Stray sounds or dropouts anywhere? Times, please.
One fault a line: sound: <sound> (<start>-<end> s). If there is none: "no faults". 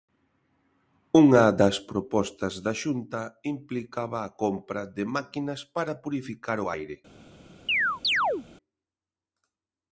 sound: chirp (7.7-8.5 s)